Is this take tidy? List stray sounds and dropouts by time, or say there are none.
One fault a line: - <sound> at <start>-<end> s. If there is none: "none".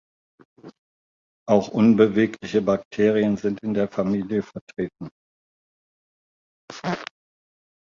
none